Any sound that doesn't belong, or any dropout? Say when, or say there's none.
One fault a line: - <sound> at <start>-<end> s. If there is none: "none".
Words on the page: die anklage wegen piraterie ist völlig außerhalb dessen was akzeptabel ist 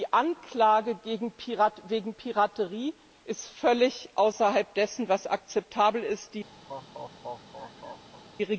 - laugh at 6.7-8.2 s